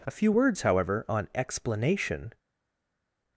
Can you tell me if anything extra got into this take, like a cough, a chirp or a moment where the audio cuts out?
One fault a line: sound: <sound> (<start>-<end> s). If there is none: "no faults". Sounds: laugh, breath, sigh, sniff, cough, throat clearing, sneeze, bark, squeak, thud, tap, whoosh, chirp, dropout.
no faults